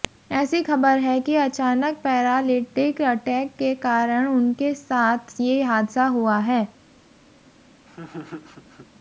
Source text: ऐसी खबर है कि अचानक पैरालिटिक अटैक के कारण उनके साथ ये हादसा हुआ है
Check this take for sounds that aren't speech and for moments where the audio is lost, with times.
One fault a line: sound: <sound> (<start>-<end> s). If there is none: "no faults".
sound: laugh (7.9-8.9 s)